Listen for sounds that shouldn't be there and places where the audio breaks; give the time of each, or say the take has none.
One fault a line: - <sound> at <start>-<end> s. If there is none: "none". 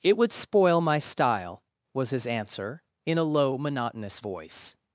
none